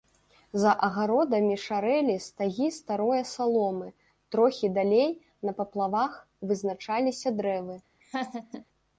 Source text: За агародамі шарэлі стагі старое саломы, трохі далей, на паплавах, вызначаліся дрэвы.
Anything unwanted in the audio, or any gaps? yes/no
yes